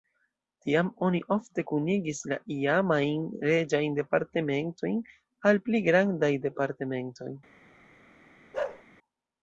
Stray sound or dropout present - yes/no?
yes